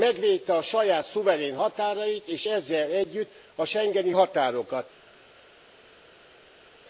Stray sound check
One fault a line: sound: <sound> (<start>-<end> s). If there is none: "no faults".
no faults